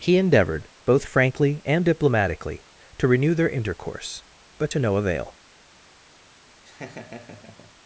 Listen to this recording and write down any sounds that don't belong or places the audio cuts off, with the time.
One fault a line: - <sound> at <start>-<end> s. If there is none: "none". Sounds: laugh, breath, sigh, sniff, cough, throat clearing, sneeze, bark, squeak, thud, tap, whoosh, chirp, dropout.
- laugh at 6.6-7.7 s